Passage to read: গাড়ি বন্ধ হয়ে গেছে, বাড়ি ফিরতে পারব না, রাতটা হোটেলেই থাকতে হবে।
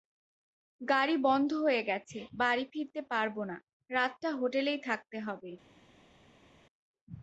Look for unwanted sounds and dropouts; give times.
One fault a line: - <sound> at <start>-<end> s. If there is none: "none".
none